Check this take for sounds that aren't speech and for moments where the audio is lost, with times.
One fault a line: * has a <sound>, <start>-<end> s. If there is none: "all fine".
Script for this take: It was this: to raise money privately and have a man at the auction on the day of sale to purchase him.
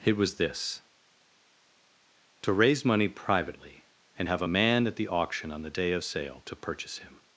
all fine